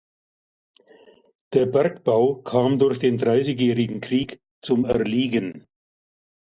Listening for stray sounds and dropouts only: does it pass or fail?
pass